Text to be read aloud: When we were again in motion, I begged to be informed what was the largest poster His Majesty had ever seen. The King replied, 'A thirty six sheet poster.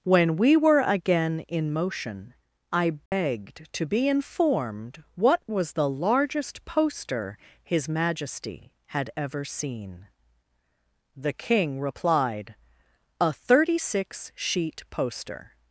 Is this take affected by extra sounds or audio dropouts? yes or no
yes